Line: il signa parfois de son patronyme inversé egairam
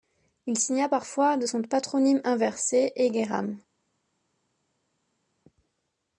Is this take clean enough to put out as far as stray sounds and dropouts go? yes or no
yes